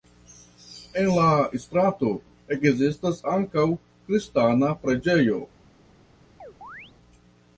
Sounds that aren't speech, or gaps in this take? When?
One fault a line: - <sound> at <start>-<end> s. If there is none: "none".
- chirp at 6.4-6.9 s